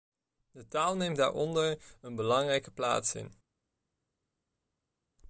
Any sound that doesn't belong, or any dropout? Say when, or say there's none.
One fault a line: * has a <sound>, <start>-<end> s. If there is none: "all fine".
all fine